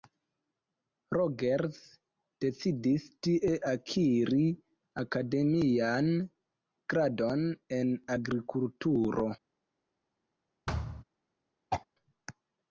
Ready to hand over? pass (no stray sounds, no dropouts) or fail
fail